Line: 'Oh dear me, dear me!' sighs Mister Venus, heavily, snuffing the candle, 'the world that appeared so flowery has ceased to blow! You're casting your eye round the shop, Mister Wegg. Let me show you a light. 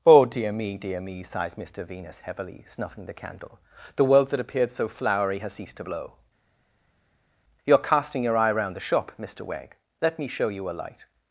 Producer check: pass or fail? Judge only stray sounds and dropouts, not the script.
pass